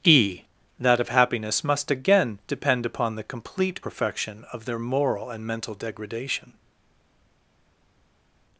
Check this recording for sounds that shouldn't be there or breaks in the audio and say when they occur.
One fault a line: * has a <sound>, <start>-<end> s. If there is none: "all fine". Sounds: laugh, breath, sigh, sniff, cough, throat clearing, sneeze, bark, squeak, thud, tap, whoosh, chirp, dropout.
all fine